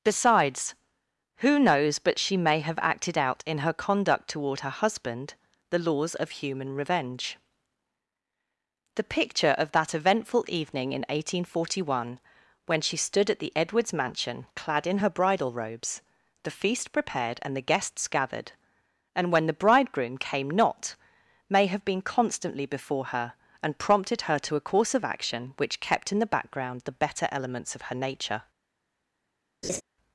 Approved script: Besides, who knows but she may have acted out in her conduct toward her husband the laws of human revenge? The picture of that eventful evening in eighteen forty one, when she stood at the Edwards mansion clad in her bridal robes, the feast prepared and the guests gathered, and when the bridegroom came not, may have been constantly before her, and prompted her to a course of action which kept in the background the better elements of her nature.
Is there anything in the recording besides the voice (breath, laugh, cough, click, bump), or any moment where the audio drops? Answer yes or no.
yes